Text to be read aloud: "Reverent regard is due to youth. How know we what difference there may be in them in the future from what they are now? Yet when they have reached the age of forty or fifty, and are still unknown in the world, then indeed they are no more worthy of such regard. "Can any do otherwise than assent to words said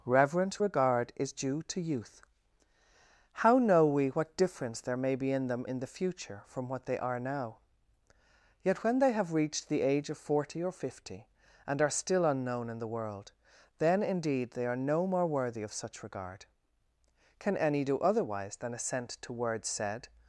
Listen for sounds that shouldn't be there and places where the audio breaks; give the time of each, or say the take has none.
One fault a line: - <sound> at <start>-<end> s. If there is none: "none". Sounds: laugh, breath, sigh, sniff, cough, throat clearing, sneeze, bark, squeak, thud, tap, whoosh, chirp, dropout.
none